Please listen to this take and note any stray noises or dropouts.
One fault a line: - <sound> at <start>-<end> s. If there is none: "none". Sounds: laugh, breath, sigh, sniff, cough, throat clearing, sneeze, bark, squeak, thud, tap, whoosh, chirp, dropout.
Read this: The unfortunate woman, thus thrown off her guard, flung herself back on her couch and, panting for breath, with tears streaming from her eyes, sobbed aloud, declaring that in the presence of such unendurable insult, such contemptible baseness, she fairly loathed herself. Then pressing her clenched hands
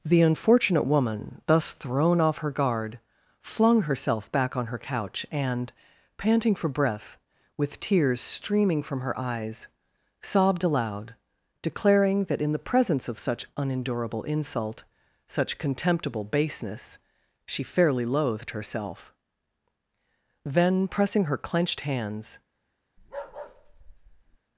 - bark at 23.0-24.4 s